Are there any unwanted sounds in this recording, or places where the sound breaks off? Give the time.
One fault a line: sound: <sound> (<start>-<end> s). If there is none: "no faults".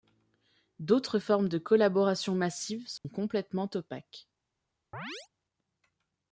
sound: dropout (3.0-3.0 s)
sound: chirp (4.9-5.3 s)